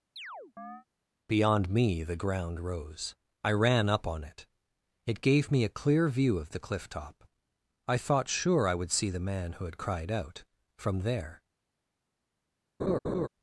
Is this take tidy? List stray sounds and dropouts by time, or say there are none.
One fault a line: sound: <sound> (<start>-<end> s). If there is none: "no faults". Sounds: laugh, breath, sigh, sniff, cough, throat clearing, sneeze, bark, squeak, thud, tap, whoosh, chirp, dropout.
sound: chirp (0.2-0.9 s)
sound: laugh (12.8-13.3 s)